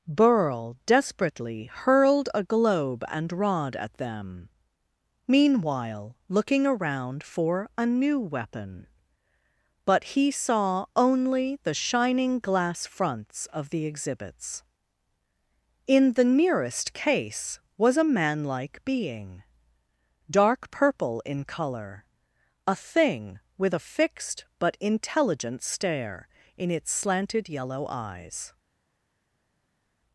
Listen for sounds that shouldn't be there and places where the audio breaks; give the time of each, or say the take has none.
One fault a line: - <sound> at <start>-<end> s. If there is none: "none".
none